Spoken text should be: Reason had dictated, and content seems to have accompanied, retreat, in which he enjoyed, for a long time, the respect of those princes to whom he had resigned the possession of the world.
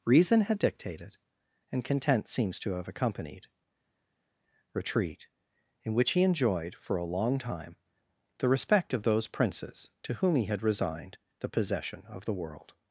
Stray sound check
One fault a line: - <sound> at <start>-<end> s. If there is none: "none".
none